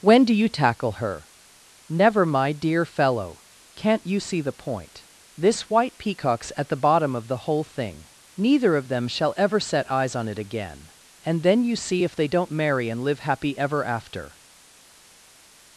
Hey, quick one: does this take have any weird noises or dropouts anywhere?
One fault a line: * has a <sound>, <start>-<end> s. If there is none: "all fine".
all fine